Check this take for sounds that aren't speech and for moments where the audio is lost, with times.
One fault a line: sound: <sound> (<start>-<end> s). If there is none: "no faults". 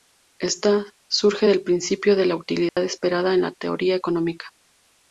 sound: dropout (2.7-2.8 s)